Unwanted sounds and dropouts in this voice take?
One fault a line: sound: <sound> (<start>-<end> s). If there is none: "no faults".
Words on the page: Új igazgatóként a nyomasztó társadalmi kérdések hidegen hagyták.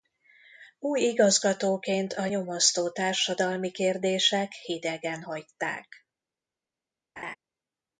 sound: laugh (7.2-7.4 s)